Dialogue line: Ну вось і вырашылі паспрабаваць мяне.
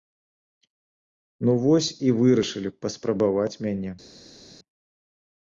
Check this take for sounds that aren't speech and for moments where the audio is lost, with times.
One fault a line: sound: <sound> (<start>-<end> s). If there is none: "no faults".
no faults